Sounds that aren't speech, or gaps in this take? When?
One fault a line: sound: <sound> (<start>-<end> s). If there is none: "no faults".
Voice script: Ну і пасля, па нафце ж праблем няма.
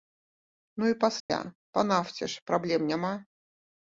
sound: dropout (1.2-1.3 s)